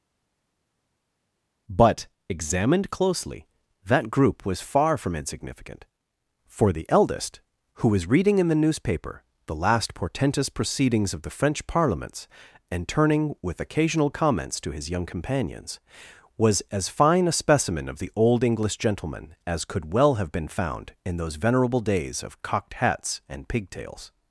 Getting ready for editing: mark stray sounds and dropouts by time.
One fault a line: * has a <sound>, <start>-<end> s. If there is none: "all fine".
all fine